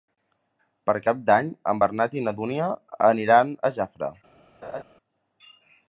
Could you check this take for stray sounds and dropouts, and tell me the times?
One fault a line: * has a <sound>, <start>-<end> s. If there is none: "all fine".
* has a laugh, 4.6-4.8 s